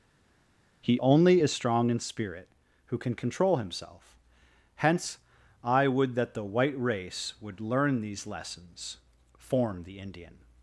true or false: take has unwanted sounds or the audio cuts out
false